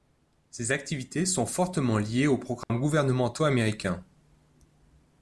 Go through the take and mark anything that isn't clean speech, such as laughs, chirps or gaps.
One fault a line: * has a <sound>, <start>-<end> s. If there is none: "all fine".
* has a dropout, 2.6-2.7 s